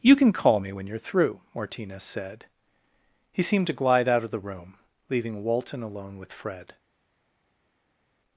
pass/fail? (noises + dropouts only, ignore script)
pass